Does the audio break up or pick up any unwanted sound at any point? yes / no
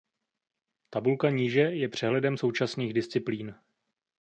no